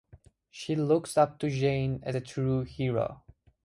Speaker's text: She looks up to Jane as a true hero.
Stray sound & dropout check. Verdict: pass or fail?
pass